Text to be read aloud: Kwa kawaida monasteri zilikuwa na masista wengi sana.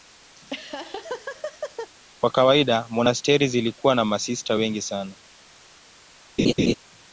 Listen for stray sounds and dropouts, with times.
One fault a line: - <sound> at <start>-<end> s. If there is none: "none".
- laugh at 0.4-1.9 s
- laugh at 6.4-6.7 s